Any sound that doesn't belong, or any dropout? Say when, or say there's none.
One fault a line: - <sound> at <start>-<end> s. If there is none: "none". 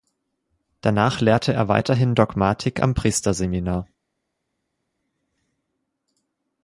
none